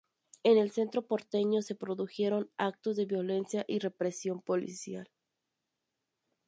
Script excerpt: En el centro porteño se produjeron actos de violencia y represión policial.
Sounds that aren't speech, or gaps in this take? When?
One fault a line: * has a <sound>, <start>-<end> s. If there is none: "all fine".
all fine